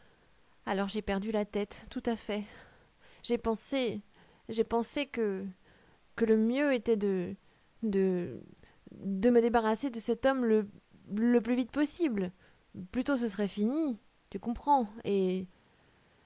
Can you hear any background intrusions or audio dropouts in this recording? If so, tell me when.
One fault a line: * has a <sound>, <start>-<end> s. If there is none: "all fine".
all fine